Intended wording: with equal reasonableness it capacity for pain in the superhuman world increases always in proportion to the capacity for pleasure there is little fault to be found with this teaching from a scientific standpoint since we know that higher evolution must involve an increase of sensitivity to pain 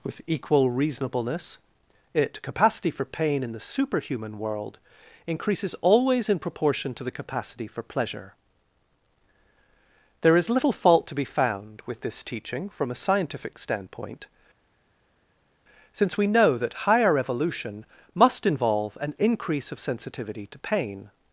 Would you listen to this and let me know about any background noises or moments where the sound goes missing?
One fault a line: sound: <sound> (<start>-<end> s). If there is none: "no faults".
no faults